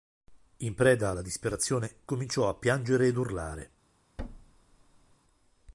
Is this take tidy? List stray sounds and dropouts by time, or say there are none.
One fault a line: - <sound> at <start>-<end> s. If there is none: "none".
- thud at 4.2-5.2 s